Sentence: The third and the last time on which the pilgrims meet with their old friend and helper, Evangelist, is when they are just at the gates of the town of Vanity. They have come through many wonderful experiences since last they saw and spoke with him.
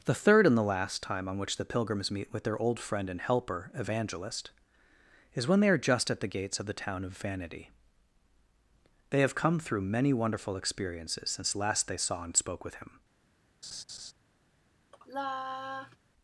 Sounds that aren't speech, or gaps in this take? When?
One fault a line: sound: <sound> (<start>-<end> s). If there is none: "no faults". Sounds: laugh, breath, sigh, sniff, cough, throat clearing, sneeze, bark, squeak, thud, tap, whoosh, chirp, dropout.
sound: laugh (13.6-14.1 s)
sound: sigh (14.9-16.0 s)